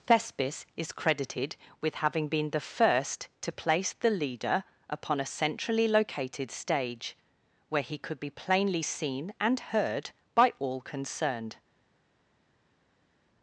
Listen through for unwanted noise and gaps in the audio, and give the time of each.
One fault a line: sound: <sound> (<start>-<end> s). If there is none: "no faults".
no faults